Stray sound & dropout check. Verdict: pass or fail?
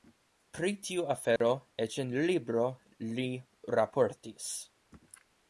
fail